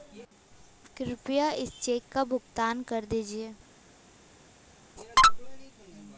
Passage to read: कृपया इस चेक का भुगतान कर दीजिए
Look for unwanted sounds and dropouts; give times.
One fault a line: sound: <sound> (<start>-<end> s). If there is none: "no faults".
no faults